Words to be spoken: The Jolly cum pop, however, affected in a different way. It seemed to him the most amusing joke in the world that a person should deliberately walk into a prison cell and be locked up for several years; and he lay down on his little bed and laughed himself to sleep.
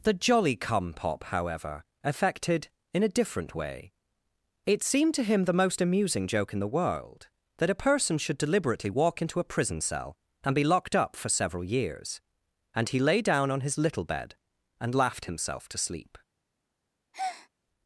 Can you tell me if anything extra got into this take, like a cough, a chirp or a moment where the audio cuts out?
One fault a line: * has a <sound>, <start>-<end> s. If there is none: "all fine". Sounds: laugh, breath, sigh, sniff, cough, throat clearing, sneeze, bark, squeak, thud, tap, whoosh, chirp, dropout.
* has a breath, 17.1-17.5 s